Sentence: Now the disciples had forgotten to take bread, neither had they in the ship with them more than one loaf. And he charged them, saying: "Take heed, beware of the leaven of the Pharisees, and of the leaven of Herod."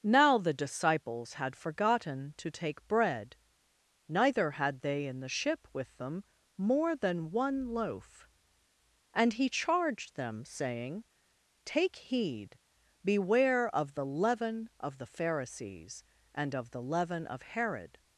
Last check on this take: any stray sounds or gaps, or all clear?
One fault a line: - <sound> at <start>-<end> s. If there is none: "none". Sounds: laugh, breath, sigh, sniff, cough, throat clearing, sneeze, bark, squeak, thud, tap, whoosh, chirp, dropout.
none